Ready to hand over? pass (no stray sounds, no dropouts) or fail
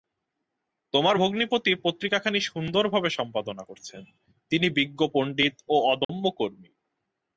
fail